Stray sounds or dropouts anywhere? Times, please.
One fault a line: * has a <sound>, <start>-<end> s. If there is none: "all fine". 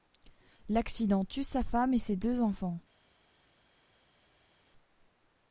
all fine